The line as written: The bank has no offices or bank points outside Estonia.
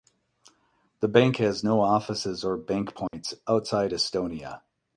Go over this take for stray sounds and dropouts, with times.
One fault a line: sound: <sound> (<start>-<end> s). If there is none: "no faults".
sound: dropout (3.1-3.1 s)